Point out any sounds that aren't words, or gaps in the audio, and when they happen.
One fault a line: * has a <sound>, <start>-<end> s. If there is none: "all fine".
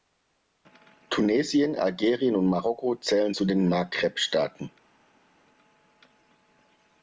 all fine